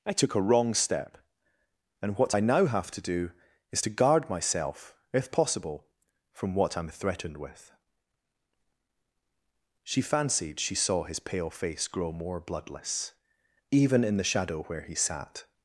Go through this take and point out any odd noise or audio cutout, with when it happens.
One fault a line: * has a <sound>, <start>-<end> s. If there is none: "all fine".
all fine